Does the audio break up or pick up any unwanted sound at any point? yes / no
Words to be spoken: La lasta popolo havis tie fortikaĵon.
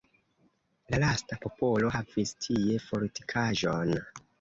no